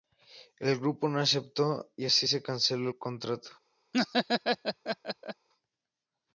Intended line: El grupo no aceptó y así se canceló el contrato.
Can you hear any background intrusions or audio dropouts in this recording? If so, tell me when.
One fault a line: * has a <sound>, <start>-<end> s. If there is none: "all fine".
* has a laugh, 3.9-5.5 s